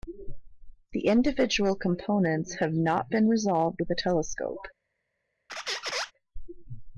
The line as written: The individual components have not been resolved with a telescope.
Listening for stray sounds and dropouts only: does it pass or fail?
fail